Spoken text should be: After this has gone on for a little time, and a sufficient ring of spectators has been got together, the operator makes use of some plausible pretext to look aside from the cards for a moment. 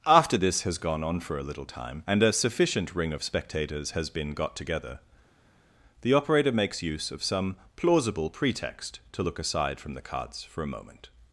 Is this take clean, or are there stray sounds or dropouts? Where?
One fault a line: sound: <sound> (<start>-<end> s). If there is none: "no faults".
no faults